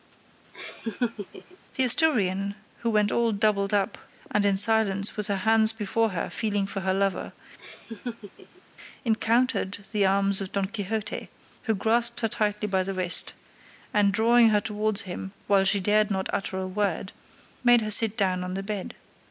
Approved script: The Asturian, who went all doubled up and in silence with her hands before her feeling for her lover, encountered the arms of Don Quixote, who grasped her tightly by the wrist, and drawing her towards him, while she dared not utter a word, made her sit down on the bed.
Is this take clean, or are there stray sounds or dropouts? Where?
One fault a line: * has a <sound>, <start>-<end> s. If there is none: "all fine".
* has a laugh, 0.5-1.6 s
* has a laugh, 7.6-8.6 s